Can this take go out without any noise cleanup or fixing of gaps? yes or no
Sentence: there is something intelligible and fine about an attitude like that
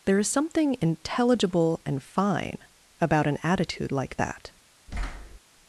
no